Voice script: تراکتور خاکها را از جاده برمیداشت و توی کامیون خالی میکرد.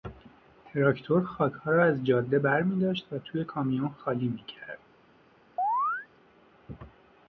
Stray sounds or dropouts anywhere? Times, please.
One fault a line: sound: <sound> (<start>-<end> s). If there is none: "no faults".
sound: chirp (5.6-6.1 s)